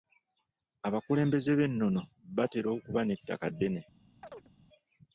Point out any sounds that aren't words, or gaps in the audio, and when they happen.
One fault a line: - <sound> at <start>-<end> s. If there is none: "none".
- chirp at 4.2-4.5 s